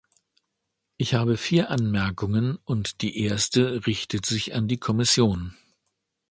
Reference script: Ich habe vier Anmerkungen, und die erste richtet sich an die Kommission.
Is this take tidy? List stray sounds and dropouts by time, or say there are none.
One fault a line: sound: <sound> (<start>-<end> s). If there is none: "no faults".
no faults